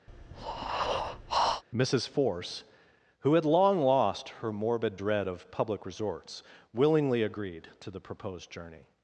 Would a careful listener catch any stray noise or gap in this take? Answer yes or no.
yes